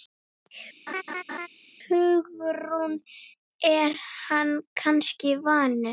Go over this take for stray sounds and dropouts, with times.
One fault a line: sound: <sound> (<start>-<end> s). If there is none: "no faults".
sound: laugh (0.9-1.5 s)